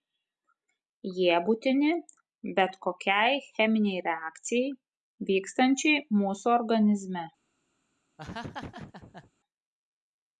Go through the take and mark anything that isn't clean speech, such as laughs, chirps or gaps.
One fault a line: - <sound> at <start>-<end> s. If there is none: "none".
- laugh at 8.2-9.3 s